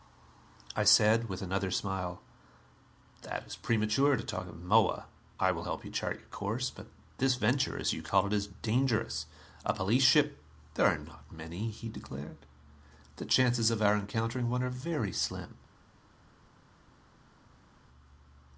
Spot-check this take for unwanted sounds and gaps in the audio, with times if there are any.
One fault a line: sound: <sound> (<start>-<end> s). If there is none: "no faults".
no faults